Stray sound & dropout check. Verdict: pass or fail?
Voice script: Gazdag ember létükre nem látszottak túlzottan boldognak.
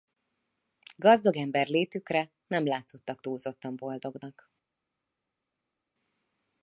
pass